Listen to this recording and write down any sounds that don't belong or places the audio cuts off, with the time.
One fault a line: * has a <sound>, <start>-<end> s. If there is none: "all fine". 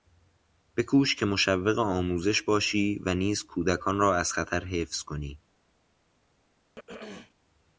* has a throat clearing, 6.8-7.3 s